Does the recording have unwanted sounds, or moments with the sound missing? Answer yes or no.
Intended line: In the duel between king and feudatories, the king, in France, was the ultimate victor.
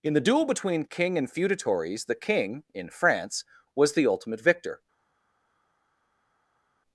no